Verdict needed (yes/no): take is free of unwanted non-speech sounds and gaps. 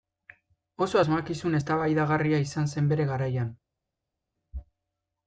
yes